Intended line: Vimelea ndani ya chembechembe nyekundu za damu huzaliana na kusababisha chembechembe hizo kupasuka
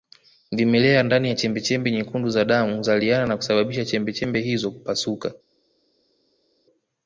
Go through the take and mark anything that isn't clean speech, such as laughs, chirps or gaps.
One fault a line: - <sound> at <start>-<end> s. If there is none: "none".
none